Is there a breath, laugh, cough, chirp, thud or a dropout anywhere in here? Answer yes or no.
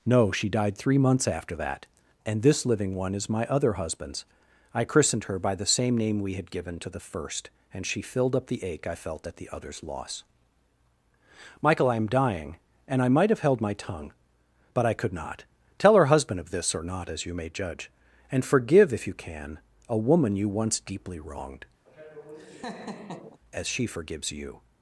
yes